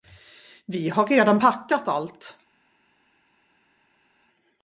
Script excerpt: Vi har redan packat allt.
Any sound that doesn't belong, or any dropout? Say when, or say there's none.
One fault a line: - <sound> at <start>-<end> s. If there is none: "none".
none